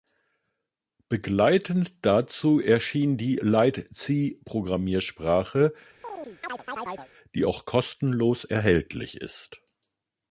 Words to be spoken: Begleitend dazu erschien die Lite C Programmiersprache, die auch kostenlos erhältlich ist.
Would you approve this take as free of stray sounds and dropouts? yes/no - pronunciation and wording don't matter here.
no